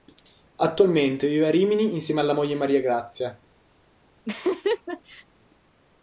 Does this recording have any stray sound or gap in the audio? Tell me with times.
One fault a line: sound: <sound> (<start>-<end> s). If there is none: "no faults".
sound: laugh (4.2-5.2 s)